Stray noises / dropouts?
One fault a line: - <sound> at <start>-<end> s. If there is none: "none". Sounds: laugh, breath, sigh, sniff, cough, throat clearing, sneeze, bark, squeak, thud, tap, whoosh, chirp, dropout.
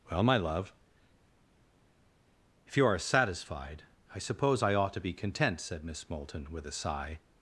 none